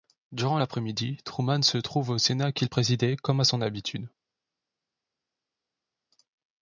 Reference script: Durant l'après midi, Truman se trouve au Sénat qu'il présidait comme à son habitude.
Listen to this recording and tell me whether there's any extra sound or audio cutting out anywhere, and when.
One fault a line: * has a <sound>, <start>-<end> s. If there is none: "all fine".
all fine